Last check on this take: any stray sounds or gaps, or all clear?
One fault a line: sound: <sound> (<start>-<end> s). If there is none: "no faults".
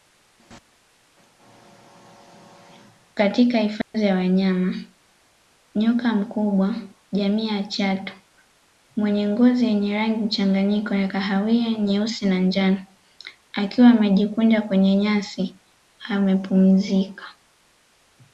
sound: dropout (3.8-3.9 s)